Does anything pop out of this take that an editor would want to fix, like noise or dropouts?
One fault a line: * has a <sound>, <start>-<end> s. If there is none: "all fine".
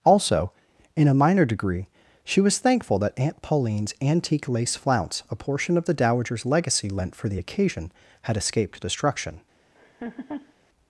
* has a laugh, 9.7-10.5 s